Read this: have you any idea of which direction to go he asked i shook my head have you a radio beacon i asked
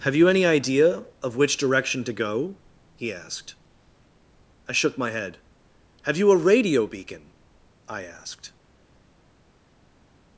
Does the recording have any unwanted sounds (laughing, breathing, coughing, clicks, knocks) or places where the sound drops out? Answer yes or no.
no